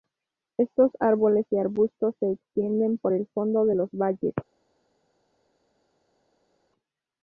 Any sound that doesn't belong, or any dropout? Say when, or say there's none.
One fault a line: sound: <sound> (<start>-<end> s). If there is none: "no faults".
no faults